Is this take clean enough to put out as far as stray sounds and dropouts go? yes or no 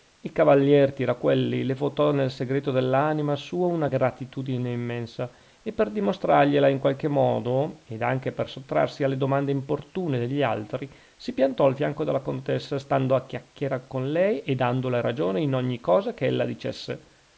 yes